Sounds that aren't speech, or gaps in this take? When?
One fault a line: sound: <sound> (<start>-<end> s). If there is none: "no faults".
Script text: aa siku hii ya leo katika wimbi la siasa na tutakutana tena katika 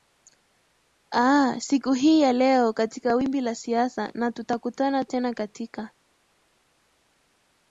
no faults